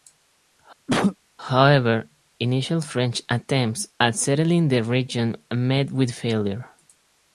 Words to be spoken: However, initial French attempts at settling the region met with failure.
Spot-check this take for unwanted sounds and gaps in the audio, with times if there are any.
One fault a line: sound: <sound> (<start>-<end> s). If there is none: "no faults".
sound: cough (0.9-1.2 s)